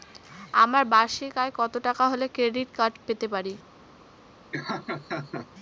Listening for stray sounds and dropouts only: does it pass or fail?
fail